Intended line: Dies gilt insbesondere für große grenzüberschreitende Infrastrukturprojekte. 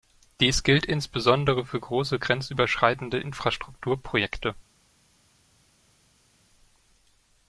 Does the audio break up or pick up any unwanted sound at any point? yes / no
no